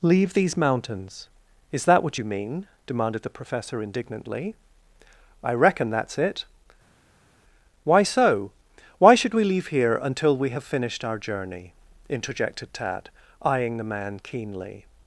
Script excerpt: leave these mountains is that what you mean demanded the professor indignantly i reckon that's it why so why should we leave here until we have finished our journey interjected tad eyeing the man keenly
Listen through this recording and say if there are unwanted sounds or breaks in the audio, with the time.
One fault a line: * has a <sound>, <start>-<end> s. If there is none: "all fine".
all fine